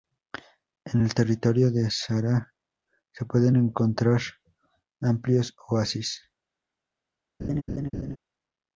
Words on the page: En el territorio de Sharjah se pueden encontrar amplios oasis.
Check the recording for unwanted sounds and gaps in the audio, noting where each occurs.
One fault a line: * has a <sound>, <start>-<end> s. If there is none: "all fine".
* has a laugh, 7.4-8.2 s